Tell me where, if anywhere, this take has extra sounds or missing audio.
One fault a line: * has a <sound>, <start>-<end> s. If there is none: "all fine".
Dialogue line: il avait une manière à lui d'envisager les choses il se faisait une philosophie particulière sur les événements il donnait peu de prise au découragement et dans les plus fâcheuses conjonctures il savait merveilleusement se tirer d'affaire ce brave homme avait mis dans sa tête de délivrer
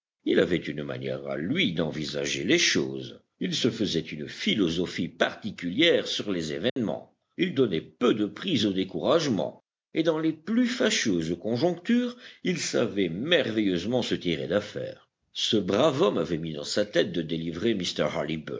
* has a dropout, 6.7-6.8 s